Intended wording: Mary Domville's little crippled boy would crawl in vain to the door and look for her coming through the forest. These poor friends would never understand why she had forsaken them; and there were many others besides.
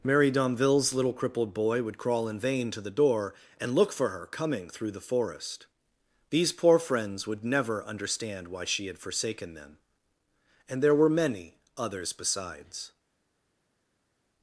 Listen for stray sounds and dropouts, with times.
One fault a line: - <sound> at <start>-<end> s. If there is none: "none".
none